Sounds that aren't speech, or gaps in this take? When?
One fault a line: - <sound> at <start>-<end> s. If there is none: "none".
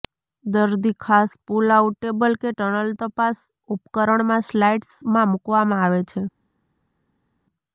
none